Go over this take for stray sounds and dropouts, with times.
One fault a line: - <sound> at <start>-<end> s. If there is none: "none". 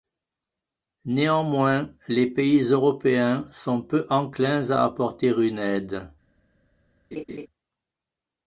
- laugh at 7.1-7.5 s